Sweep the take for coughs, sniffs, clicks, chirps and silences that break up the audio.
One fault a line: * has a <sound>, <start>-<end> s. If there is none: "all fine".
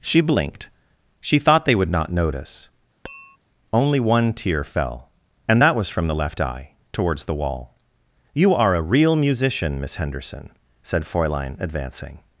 * has a tap, 3.0-3.4 s